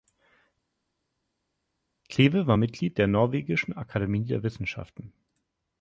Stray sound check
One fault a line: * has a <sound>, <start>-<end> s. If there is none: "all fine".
all fine